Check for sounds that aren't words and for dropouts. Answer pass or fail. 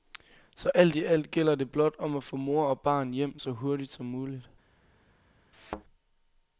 fail